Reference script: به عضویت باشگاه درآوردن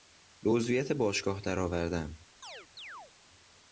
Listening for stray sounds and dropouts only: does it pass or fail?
fail